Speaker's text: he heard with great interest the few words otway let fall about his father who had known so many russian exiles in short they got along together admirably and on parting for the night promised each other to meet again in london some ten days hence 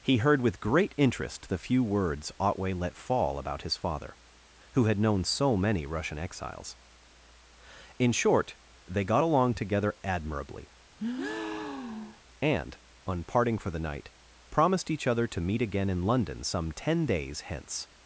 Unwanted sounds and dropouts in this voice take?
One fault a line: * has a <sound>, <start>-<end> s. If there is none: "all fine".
* has a breath, 11.0-12.2 s